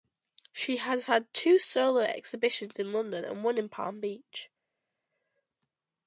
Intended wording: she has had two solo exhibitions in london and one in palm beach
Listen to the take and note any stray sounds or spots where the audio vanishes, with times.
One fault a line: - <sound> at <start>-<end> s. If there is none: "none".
none